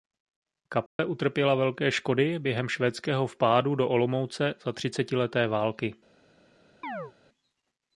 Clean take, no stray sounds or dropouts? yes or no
no